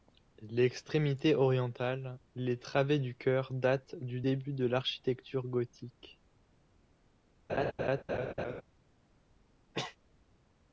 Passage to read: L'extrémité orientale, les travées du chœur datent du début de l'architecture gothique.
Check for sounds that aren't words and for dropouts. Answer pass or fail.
fail